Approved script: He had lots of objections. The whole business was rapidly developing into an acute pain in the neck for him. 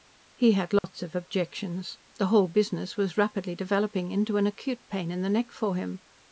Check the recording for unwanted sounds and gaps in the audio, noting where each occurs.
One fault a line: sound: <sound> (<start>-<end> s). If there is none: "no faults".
sound: dropout (0.8-0.8 s)